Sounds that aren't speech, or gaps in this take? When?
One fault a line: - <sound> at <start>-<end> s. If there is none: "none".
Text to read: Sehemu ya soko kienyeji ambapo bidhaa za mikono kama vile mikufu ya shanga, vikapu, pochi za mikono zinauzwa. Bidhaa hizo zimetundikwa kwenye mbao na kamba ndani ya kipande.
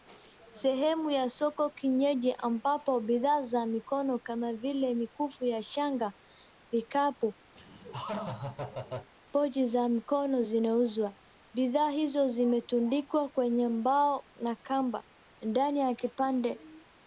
- laugh at 7.6-9.1 s